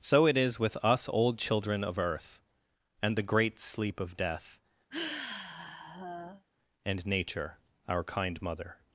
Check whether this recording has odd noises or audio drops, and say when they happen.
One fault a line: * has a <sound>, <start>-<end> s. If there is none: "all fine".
* has a sigh, 4.9-6.5 s